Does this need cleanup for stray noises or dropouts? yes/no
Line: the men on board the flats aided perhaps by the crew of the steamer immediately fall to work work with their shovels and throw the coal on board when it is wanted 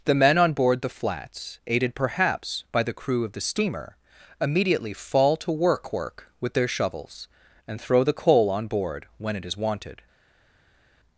no